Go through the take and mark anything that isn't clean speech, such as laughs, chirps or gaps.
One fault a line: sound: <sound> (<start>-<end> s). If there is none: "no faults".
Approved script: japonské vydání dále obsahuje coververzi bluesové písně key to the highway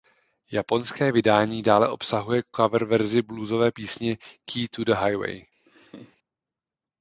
sound: laugh (5.7-6.2 s)